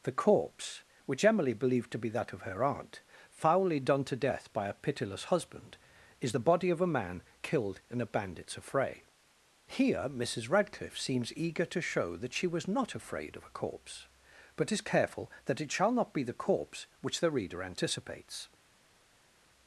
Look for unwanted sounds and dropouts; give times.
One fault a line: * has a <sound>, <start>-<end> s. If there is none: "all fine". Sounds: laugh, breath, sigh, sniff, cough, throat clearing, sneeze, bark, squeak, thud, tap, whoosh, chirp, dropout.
all fine